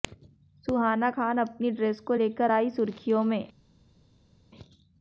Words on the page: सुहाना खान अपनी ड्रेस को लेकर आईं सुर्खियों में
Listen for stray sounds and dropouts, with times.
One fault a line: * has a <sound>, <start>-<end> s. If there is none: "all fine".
all fine